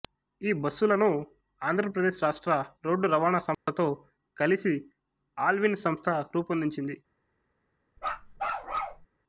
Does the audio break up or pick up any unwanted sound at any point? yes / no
yes